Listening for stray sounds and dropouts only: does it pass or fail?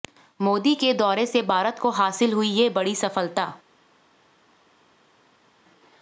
pass